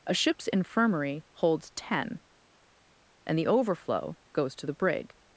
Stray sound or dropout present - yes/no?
no